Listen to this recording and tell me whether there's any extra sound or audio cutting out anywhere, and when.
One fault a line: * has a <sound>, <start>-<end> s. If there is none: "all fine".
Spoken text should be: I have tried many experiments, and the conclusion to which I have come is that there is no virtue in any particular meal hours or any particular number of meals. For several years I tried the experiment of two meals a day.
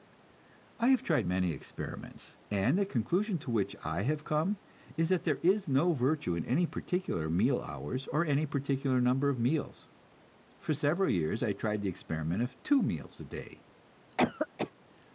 * has a cough, 14.1-14.7 s